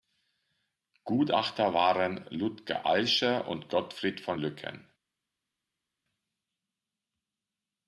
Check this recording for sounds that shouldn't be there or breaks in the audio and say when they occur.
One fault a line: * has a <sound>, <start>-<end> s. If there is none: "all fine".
all fine